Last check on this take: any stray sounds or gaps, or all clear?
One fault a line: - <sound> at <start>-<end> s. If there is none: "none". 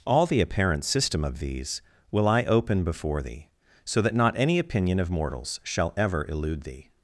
none